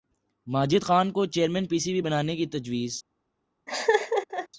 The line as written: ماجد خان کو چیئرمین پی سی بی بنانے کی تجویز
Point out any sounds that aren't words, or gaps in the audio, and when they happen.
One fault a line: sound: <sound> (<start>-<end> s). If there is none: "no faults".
sound: laugh (3.7-4.5 s)